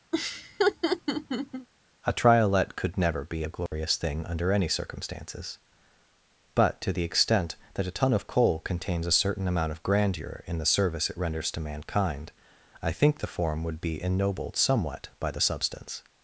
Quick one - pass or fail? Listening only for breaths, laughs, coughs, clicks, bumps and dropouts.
fail